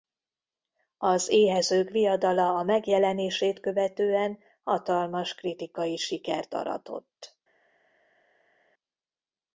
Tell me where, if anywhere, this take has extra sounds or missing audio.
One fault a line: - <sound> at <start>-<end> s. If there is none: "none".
none